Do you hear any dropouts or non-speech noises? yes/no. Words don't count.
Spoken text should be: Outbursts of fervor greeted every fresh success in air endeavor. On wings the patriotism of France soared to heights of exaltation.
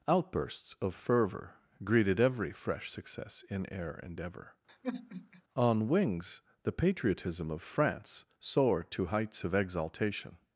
yes